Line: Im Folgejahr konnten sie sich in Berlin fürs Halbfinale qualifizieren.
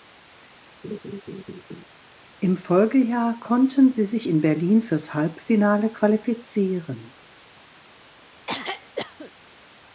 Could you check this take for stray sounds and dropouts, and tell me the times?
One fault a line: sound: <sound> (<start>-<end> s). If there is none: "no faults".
sound: laugh (0.8-1.8 s)
sound: throat clearing (8.5-9.3 s)